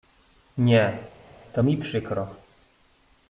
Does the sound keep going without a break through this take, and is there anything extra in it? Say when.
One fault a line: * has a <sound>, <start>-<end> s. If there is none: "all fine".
all fine